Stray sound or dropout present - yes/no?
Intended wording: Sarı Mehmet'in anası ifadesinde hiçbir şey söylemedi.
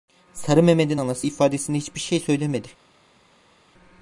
no